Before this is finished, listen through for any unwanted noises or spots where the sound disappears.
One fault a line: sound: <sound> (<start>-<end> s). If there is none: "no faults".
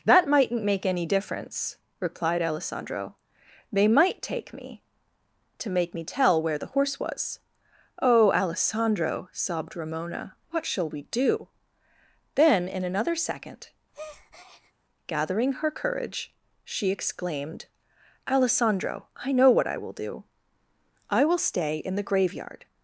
sound: breath (13.9-14.7 s)